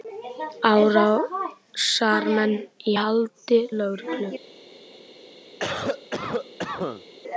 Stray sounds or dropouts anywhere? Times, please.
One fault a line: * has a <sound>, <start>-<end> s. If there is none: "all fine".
* has a cough, 5.6-7.0 s